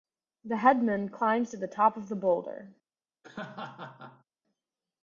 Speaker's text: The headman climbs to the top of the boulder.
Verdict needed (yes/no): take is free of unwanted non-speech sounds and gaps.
no